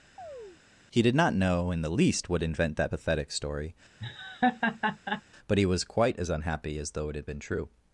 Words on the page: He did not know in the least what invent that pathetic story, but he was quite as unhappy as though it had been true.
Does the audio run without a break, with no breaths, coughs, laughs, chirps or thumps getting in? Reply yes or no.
no